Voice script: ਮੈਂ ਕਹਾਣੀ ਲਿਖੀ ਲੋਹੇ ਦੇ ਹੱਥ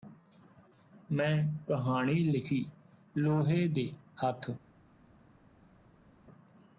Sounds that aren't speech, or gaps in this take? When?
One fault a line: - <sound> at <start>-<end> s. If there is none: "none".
none